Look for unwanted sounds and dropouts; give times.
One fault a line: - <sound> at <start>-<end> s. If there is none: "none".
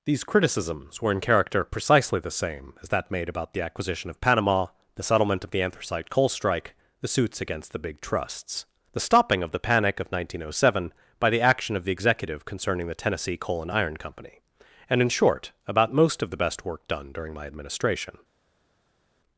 none